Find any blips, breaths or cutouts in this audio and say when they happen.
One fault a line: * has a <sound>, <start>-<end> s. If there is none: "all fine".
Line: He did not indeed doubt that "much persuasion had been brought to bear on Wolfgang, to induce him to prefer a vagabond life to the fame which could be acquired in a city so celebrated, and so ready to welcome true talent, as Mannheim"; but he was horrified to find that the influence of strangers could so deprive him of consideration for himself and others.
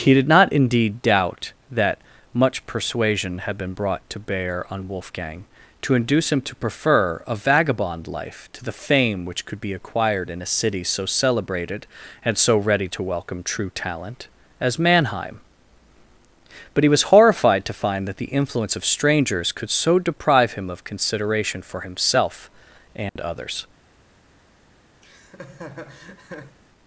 * has a dropout, 23.1-23.2 s
* has a laugh, 25.0-26.6 s